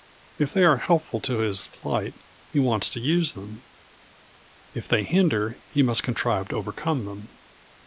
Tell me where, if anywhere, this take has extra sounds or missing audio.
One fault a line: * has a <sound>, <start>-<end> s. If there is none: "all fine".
all fine